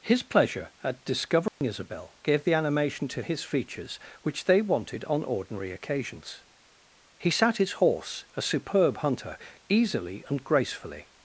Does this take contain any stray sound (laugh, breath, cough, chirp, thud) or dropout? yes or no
yes